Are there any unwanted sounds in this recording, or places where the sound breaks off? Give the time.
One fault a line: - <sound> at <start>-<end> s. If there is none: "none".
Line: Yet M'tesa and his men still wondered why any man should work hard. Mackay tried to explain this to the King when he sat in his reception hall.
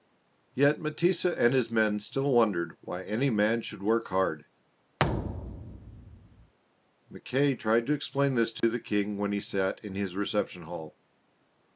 - thud at 5.0-6.5 s
- dropout at 8.6-8.6 s